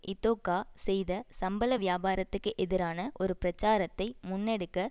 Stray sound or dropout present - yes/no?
no